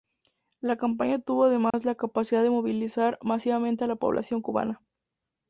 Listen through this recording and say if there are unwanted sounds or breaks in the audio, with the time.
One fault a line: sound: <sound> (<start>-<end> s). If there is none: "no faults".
sound: dropout (1.7-1.7 s)